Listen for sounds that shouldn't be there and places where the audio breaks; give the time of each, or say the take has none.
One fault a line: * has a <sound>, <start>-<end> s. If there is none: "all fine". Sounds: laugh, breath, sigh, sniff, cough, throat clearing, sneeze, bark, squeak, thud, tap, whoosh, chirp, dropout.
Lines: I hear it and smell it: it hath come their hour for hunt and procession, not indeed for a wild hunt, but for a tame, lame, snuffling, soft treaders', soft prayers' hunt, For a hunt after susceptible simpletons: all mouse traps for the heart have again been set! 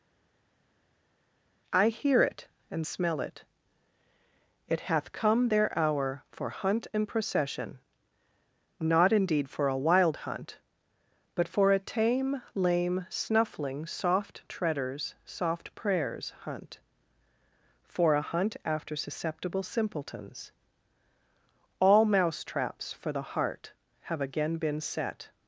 all fine